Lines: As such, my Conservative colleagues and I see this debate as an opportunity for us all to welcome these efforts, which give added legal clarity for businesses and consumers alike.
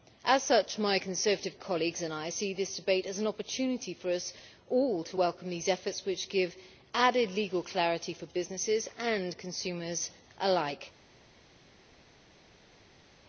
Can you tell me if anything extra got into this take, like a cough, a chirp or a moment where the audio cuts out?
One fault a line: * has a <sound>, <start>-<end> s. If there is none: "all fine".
all fine